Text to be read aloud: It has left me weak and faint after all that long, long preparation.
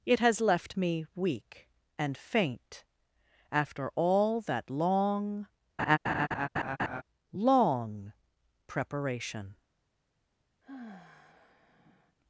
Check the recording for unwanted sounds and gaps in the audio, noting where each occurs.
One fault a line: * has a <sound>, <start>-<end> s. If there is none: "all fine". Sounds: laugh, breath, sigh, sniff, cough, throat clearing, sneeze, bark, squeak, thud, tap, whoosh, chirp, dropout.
* has a laugh, 5.8-7.0 s
* has a sigh, 10.6-12.2 s